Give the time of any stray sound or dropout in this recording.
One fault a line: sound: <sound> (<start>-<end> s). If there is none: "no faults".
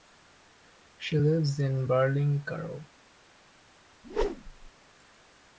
sound: whoosh (4.0-4.7 s)